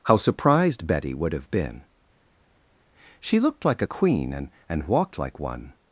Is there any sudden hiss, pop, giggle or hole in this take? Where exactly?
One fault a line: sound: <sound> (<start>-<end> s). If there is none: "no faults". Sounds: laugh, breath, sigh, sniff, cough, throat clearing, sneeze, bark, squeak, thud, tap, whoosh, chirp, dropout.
no faults